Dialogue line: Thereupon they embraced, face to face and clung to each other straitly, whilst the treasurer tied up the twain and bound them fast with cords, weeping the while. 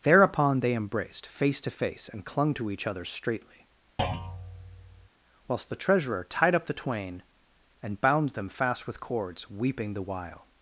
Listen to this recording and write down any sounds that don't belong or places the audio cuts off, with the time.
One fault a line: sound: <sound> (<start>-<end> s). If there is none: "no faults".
sound: thud (4.0-5.1 s)